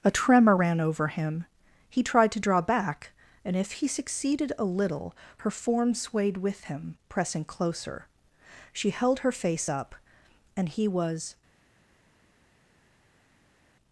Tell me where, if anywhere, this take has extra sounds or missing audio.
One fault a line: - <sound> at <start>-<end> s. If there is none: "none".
none